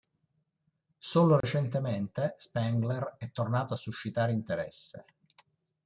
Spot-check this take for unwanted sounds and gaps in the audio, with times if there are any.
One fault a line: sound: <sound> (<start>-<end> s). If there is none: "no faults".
sound: dropout (1.4-1.4 s)